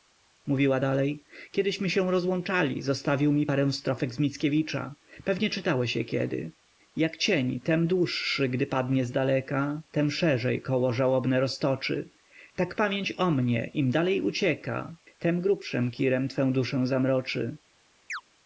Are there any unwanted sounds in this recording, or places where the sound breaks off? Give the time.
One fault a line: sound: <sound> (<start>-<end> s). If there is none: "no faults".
sound: chirp (18.1-18.2 s)